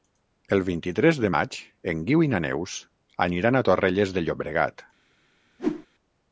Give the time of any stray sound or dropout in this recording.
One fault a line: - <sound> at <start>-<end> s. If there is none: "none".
- whoosh at 5.6-5.9 s